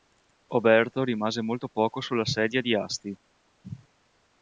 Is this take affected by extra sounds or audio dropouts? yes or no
no